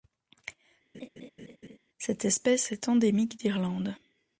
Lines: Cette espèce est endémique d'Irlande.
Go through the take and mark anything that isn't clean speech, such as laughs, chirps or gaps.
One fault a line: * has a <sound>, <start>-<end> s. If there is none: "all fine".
* has a laugh, 0.9-1.8 s